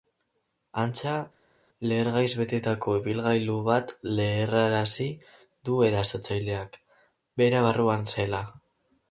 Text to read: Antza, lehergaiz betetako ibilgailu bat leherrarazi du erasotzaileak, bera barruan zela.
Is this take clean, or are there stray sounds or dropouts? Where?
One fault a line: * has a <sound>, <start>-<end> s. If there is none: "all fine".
all fine